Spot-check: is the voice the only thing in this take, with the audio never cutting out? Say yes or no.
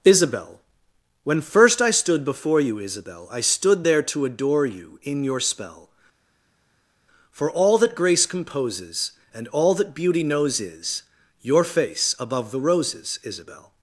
yes